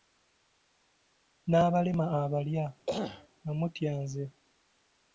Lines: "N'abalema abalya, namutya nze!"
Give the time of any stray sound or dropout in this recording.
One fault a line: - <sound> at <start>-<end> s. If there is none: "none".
- throat clearing at 2.9-3.3 s